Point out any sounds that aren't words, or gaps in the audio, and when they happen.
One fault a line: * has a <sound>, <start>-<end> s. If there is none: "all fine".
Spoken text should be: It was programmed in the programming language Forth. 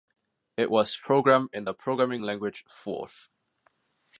all fine